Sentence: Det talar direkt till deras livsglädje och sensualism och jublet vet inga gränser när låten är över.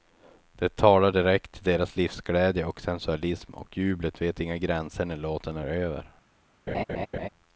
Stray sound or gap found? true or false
true